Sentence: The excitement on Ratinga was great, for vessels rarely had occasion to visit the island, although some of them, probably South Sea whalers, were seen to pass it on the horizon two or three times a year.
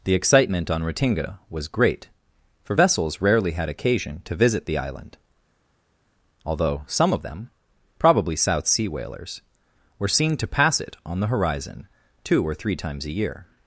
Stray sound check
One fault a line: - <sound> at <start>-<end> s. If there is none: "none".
none